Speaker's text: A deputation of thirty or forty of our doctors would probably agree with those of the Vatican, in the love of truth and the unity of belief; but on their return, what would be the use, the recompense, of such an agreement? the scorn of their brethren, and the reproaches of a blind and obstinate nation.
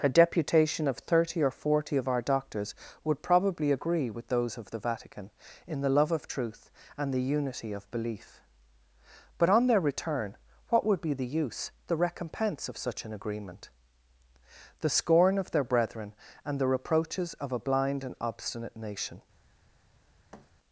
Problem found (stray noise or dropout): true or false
true